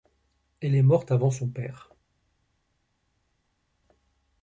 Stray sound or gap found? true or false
false